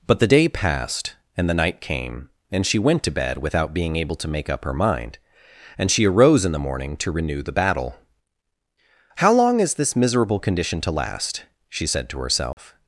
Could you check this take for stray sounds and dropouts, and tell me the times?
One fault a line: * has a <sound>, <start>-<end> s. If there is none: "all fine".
* has a dropout, 12.5-12.6 s